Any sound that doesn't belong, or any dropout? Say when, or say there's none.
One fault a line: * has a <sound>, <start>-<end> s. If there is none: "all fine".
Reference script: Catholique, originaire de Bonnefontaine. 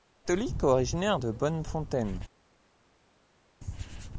all fine